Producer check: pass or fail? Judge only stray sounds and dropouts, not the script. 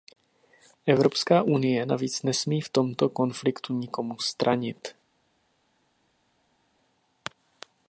pass